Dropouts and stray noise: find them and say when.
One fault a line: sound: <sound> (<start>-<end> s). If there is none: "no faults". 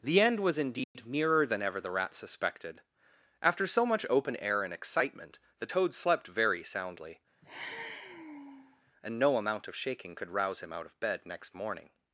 sound: dropout (0.8-0.9 s)
sound: sigh (7.4-8.9 s)